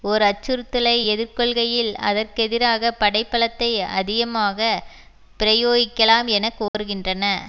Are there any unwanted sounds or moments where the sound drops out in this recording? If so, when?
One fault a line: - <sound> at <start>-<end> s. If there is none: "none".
- dropout at 6.7-6.7 s